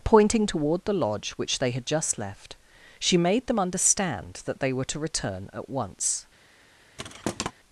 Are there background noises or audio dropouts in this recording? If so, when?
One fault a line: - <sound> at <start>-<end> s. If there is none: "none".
- thud at 7.0-7.5 s